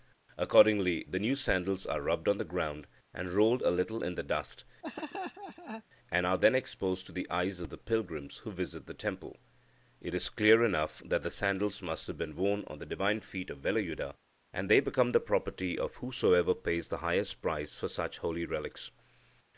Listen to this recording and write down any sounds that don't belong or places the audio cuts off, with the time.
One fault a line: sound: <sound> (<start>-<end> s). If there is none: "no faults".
sound: laugh (4.8-5.8 s)